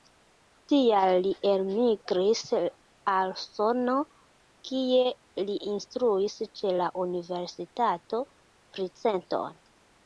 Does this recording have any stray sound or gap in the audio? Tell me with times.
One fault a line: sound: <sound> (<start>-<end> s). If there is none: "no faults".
no faults